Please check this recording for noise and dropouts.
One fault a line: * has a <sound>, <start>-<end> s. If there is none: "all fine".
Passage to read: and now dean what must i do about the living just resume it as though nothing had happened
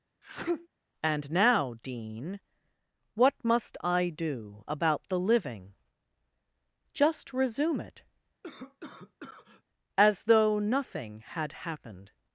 * has a sneeze, 0.2-0.7 s
* has a cough, 8.4-9.6 s